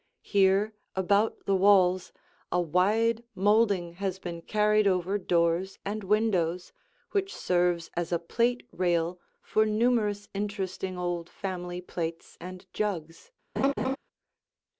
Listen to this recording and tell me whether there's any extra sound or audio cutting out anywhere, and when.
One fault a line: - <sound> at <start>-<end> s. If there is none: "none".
- laugh at 13.6-14.0 s